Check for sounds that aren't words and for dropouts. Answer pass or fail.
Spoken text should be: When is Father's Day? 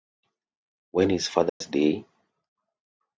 fail